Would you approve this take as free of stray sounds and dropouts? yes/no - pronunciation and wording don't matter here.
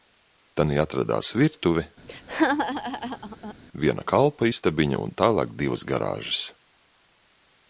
no